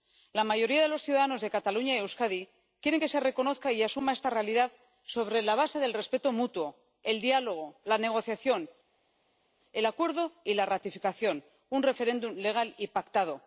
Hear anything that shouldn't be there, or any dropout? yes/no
no